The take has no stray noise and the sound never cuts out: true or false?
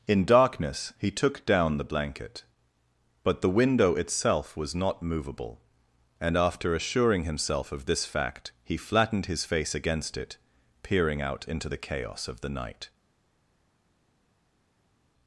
true